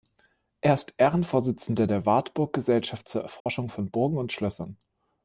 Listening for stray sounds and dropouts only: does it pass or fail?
fail